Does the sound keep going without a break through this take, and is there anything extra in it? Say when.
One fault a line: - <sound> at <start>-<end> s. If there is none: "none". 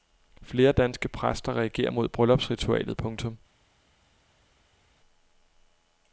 none